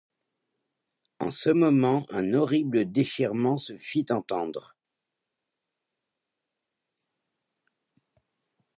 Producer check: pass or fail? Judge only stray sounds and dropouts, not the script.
pass